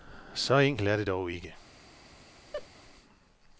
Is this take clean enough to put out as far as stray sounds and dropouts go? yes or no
no